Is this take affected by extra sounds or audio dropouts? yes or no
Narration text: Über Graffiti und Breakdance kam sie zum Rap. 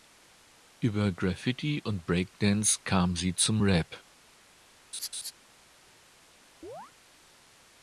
yes